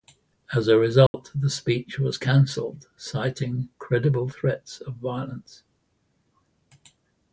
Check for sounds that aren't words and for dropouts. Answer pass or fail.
fail